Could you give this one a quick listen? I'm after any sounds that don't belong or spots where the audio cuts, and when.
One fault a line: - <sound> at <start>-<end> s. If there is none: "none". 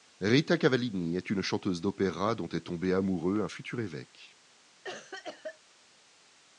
- cough at 4.8-5.6 s